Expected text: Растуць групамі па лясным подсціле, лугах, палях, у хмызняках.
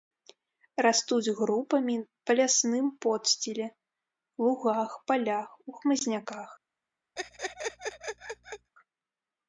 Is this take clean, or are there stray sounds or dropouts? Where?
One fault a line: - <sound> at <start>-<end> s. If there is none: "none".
- laugh at 7.2-8.7 s